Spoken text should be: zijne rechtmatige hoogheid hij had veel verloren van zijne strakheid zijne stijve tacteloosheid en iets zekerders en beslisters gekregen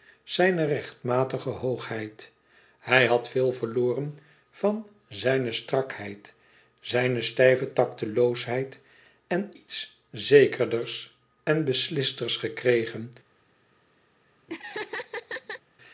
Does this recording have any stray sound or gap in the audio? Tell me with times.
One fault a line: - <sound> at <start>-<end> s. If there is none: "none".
- laugh at 14.5-15.6 s